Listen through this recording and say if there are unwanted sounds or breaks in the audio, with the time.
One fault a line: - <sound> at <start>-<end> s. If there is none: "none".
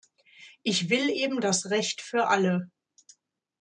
none